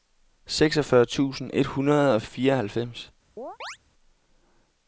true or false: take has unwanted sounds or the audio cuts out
true